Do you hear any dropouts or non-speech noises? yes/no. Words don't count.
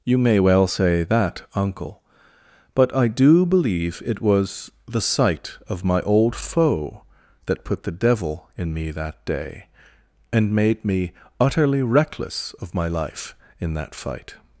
no